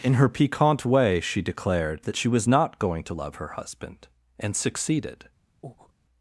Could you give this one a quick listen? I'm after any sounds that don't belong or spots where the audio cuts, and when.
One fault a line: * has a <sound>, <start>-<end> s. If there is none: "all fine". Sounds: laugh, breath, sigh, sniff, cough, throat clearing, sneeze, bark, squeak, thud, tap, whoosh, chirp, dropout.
* has a breath, 5.6-5.9 s